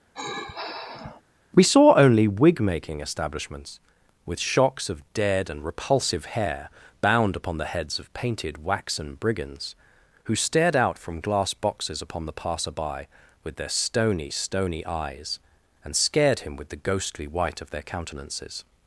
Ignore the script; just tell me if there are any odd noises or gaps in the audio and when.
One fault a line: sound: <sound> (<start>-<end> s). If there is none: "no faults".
sound: sigh (0.1-1.2 s)